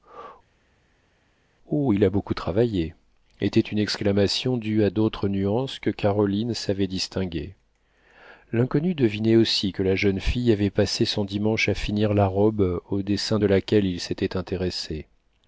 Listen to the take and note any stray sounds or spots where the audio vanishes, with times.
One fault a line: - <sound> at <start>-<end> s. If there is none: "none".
none